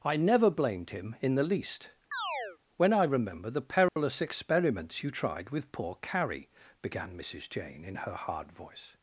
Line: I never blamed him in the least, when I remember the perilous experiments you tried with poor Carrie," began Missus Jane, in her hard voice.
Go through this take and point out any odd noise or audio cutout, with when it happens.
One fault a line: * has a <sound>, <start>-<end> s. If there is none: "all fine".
* has a chirp, 2.1-2.6 s
* has a dropout, 3.9-4.0 s